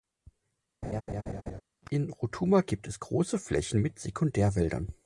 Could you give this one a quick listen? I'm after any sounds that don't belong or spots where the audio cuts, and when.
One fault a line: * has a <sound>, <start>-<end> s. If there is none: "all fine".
* has a laugh, 0.8-1.6 s